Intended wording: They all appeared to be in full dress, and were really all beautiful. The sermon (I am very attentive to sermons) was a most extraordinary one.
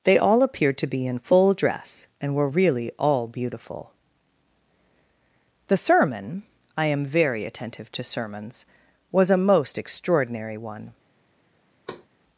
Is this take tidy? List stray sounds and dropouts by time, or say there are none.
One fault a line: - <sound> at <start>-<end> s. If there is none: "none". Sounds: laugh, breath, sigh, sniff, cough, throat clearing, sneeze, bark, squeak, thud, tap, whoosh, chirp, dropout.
- thud at 11.9-12.1 s